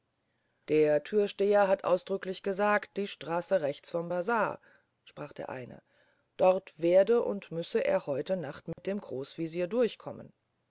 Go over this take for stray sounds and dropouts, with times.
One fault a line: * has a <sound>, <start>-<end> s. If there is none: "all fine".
* has a dropout, 8.7-8.8 s